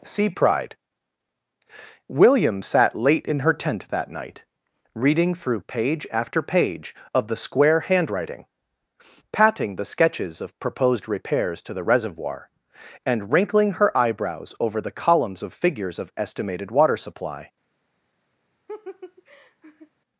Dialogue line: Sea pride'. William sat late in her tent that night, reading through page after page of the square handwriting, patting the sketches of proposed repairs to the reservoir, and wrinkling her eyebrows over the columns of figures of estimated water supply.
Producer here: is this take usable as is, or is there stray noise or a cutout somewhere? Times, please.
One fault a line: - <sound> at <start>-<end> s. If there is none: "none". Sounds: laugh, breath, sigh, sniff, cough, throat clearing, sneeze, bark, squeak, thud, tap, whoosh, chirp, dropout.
- laugh at 18.7-19.9 s